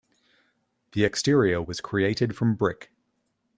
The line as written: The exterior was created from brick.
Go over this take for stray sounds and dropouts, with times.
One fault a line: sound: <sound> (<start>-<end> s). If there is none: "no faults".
no faults